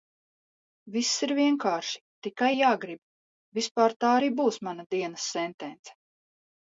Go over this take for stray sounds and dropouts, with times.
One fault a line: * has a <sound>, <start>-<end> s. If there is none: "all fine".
all fine